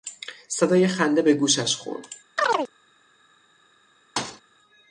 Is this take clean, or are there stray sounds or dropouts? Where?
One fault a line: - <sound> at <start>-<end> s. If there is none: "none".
- chirp at 2.4-2.7 s
- thud at 4.2-4.4 s